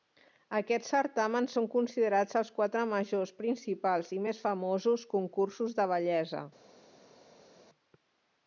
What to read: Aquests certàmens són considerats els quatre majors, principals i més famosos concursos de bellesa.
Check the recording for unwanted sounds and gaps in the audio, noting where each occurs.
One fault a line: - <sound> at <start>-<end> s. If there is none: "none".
none